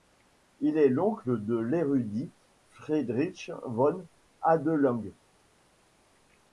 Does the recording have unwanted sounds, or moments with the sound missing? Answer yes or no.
no